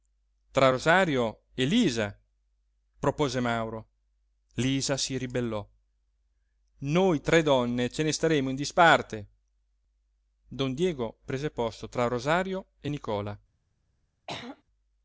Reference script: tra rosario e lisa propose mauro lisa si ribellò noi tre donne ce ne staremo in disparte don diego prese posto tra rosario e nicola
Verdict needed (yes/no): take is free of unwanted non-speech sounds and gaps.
no